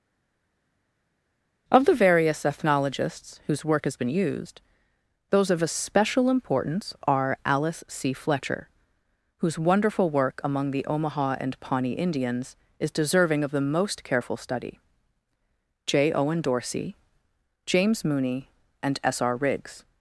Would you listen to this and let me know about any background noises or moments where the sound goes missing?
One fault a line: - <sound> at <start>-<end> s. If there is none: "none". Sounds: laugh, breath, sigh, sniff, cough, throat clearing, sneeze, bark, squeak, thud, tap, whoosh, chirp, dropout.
none